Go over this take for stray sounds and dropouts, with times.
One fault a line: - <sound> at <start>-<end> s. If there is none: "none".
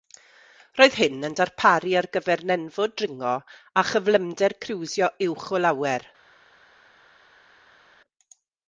none